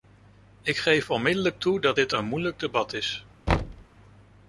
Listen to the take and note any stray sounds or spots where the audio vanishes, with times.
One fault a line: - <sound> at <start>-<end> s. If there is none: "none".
- thud at 3.5-3.8 s